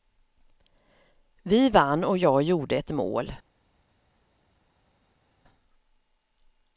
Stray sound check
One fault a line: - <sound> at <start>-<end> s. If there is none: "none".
none